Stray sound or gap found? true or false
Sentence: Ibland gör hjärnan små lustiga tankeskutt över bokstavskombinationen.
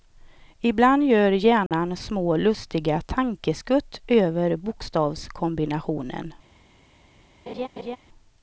true